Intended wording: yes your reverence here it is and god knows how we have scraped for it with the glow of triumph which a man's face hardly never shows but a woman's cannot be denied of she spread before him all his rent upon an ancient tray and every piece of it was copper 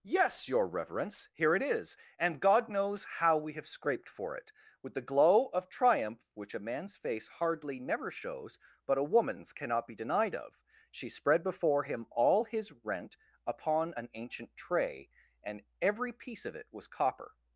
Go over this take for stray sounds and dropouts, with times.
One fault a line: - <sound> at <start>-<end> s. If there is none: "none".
none